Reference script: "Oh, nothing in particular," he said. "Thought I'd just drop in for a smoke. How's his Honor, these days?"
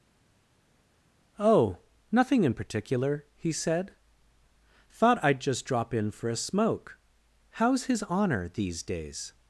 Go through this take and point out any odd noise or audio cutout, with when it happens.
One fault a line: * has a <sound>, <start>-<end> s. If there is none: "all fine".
all fine